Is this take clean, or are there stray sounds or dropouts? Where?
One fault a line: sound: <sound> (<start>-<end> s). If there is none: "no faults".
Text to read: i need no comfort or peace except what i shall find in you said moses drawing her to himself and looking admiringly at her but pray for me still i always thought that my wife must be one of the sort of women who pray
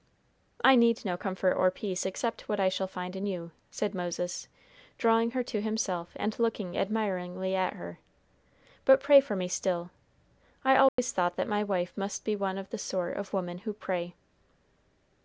sound: dropout (10.9-11.0 s)